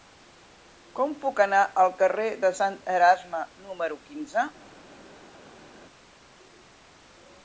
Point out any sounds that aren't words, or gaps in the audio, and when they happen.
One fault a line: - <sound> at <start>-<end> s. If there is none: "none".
none